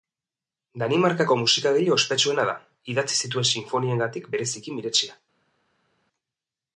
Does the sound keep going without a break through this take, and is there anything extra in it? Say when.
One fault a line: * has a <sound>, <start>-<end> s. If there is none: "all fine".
all fine